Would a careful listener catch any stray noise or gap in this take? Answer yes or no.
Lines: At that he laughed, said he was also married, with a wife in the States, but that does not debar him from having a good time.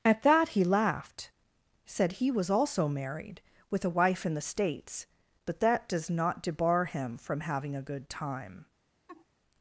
yes